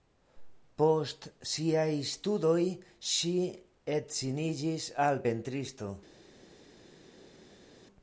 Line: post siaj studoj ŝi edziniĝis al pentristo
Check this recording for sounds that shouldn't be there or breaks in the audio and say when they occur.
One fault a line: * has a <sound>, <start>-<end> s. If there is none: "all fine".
all fine